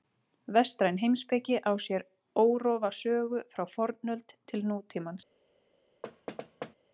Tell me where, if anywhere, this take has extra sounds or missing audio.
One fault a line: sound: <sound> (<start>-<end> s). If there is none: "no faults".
sound: thud (6.0-6.7 s)